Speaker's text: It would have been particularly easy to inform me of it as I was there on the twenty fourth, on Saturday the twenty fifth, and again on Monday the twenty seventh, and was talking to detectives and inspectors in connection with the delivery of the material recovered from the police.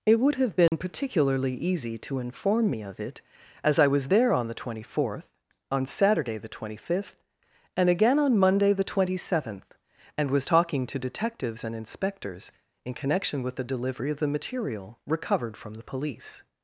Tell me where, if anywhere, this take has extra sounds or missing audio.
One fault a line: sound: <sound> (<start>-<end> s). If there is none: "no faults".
sound: dropout (0.7-0.7 s)